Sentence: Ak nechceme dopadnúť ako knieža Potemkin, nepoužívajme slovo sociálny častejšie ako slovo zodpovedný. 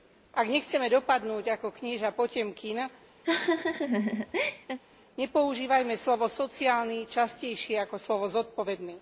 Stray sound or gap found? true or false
true